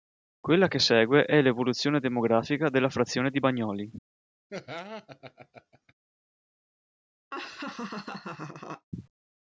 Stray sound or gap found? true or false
true